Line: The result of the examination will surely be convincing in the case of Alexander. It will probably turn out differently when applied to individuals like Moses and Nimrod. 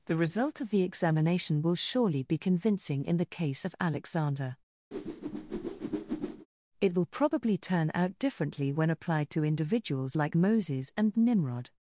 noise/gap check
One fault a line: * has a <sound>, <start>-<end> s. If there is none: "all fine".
* has a whoosh, 4.9-6.5 s